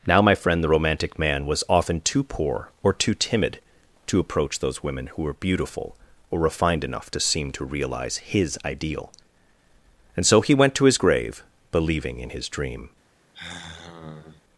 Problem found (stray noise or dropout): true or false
true